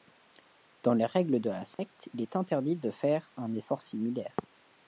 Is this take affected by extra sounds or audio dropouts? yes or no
yes